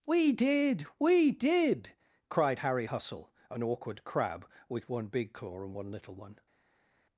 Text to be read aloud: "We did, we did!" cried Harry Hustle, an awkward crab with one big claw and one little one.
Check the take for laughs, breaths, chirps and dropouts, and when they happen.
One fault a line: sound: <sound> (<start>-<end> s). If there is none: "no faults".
no faults